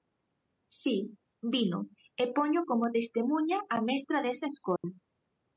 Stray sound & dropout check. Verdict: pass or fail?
fail